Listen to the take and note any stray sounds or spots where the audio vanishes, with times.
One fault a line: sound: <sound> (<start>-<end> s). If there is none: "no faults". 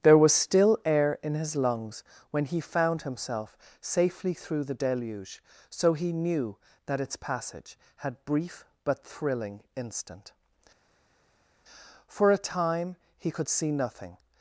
no faults